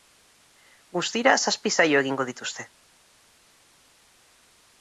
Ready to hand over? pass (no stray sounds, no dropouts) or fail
pass